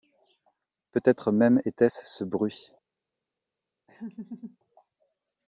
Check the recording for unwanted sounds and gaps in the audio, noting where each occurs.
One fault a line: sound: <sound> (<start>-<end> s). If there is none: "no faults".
sound: laugh (3.9-4.6 s)